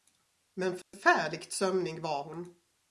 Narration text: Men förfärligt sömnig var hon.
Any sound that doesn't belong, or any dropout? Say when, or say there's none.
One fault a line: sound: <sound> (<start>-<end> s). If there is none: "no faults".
sound: dropout (0.8-0.9 s)